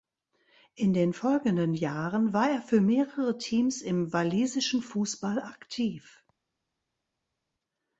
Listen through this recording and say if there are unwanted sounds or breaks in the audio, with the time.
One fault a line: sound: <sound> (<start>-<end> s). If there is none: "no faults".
no faults